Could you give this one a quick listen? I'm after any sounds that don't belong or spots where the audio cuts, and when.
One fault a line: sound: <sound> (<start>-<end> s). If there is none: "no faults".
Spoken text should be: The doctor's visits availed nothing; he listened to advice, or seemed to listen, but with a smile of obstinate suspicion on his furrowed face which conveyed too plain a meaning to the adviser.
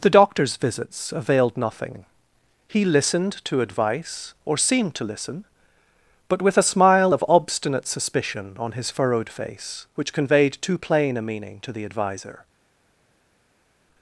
no faults